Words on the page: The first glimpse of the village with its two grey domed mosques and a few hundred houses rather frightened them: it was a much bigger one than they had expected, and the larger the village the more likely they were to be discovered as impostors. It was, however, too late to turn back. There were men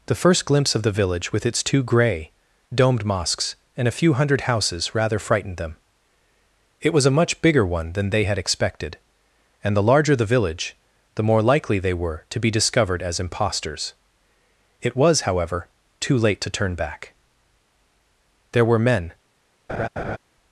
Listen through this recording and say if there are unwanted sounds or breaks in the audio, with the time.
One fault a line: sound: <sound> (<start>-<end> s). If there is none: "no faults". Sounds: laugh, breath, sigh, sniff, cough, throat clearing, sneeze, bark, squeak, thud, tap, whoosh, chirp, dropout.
sound: laugh (19.7-20.2 s)